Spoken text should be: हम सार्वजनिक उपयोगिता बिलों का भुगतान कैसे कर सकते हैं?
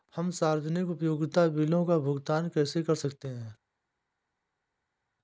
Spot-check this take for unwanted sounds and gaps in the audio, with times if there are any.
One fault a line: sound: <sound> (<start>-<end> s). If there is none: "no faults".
no faults